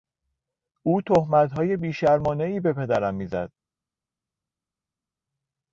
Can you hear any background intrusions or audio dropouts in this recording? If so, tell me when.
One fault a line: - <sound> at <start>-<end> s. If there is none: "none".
none